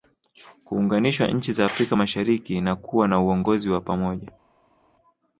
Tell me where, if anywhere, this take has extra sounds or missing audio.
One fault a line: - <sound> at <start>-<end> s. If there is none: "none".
none